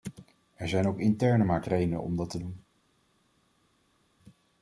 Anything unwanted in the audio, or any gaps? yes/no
no